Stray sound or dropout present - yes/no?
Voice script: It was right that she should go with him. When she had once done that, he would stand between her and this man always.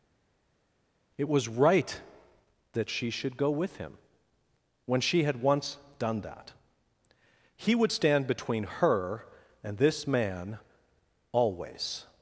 no